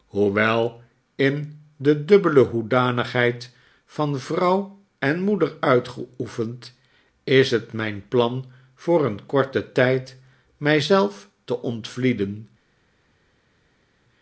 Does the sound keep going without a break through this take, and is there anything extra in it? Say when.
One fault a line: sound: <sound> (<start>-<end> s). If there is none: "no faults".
no faults